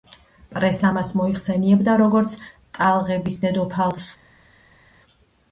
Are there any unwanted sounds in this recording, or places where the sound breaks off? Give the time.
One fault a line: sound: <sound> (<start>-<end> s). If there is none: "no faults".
no faults